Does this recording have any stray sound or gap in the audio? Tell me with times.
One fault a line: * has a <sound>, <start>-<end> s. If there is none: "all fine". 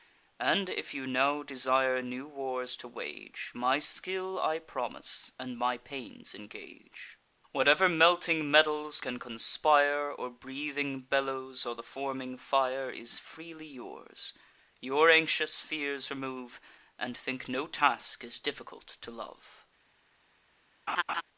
* has a laugh, 20.9-21.2 s